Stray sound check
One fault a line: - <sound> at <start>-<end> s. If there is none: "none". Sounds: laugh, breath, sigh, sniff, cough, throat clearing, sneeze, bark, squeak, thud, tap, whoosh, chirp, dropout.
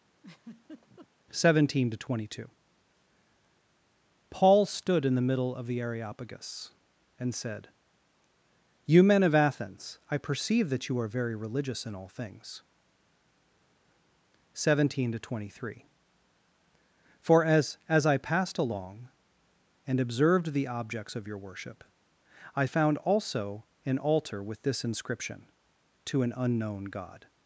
- laugh at 0.2-1.1 s